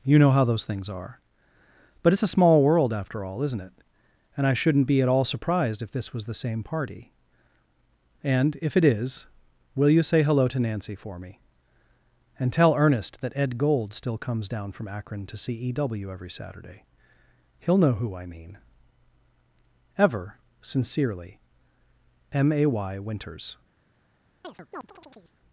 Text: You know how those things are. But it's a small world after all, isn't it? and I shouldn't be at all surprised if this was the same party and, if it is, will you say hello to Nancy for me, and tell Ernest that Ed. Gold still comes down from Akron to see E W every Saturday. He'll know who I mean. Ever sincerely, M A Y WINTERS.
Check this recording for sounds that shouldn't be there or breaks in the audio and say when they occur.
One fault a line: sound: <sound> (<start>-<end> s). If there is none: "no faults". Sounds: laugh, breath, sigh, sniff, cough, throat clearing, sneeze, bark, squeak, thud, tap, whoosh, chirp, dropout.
sound: chirp (24.4-25.4 s)